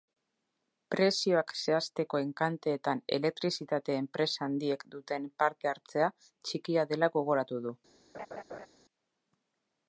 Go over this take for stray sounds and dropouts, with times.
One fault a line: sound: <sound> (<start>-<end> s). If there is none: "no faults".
sound: laugh (8.1-8.7 s)